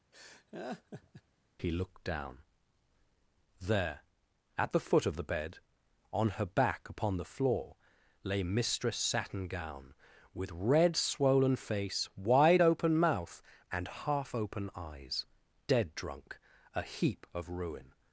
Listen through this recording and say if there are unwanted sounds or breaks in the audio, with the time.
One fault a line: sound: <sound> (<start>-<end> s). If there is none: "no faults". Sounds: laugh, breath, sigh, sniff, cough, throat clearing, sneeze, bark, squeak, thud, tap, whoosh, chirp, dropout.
sound: laugh (0.1-1.2 s)